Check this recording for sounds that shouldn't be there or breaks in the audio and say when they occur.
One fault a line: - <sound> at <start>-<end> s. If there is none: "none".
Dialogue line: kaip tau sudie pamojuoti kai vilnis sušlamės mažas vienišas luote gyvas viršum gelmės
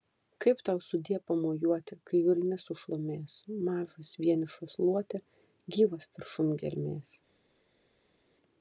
none